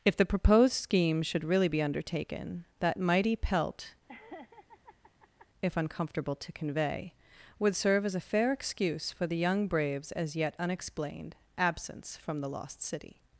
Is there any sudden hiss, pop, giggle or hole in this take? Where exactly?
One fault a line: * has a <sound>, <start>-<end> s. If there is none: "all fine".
* has a laugh, 4.1-5.5 s